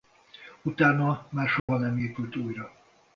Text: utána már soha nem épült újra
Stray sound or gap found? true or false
true